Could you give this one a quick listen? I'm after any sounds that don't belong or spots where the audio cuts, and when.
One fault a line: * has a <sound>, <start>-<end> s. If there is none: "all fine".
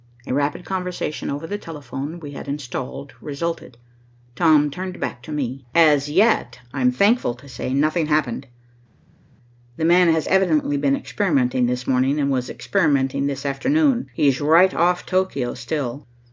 all fine